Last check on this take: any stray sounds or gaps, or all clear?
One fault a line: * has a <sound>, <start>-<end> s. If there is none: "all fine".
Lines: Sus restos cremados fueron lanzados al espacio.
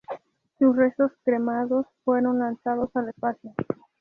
all fine